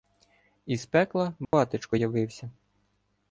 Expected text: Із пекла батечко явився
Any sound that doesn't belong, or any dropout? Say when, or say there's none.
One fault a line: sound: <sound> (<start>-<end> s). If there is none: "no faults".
sound: dropout (1.4-1.5 s)